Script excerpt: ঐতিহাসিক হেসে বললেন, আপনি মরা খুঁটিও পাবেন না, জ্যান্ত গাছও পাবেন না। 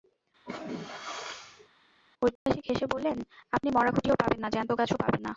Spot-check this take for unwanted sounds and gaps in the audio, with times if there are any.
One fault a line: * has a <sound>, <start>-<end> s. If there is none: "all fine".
* has a sneeze, 0.5-1.7 s
* has a dropout, 2.4-2.5 s